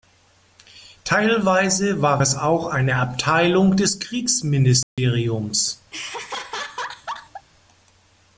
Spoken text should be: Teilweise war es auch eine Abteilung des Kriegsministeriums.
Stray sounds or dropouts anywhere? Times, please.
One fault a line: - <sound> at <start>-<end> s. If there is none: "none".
- dropout at 4.8-5.0 s
- laugh at 5.9-7.5 s